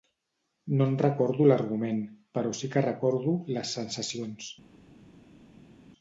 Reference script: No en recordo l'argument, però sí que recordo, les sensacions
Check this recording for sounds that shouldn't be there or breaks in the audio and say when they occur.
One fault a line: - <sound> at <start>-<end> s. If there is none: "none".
none